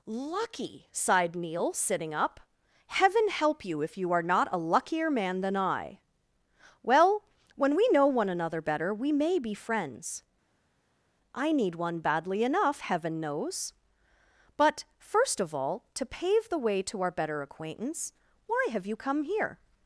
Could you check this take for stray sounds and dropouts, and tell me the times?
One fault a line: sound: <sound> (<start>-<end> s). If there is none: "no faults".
no faults